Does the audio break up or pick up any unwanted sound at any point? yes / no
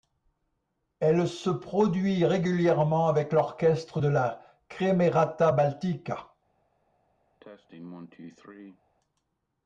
yes